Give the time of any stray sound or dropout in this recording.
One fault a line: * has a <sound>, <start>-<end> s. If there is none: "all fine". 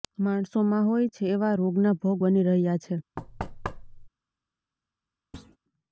* has a thud, 3.2-4.1 s
* has a thud, 5.3-5.6 s